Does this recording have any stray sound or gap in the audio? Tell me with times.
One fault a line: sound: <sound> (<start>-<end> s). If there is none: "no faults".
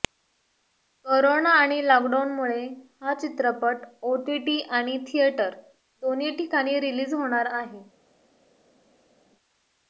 no faults